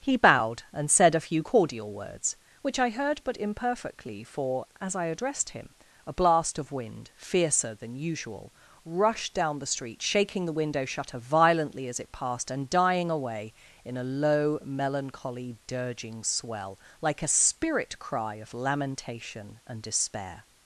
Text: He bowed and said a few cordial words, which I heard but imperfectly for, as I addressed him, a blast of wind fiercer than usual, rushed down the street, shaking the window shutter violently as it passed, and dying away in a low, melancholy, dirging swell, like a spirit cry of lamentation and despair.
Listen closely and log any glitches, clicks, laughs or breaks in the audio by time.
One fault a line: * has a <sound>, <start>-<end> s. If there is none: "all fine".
all fine